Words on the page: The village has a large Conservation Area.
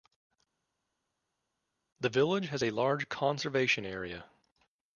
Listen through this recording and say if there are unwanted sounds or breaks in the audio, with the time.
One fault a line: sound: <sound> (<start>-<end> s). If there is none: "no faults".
no faults